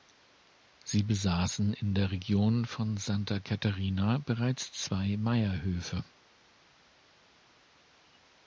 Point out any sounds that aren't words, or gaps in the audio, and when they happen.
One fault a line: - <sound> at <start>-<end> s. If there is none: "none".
none